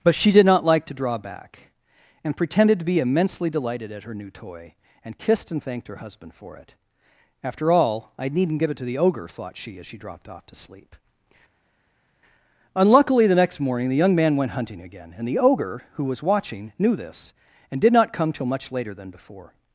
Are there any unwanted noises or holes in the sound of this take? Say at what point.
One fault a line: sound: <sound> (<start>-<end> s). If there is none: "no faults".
no faults